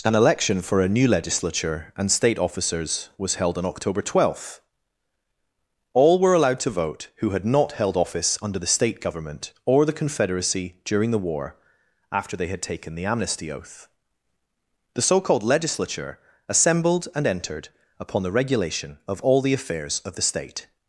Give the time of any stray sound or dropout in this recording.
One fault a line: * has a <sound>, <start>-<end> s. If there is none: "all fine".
all fine